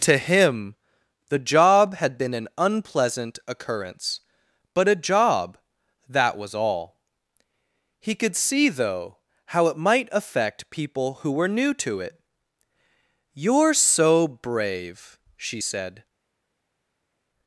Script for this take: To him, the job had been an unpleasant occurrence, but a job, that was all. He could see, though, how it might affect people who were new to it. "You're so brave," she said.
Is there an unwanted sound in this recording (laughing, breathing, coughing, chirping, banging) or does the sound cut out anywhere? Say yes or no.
no